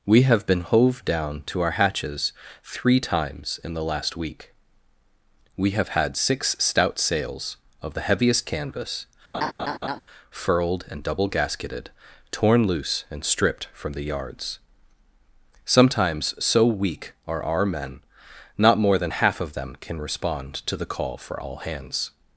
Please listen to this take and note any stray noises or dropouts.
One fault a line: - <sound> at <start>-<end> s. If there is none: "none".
- laugh at 9.3-10.0 s